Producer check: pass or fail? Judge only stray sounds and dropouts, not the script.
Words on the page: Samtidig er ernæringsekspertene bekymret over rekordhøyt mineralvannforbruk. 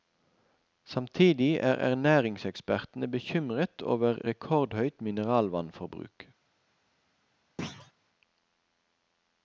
fail